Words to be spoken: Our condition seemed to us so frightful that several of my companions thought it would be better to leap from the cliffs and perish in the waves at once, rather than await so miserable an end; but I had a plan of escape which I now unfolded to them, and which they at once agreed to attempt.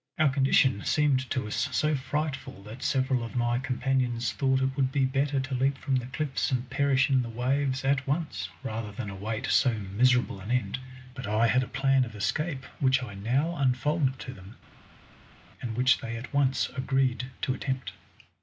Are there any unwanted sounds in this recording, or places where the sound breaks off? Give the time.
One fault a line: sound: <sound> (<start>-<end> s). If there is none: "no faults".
no faults